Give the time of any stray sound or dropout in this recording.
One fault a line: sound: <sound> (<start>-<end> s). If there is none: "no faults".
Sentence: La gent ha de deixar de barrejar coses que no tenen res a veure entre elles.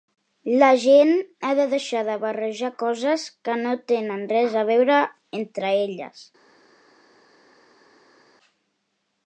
no faults